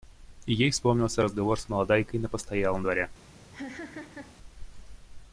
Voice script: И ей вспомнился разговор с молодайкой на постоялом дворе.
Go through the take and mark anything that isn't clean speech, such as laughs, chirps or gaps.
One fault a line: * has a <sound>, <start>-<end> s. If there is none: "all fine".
* has a laugh, 3.5-4.4 s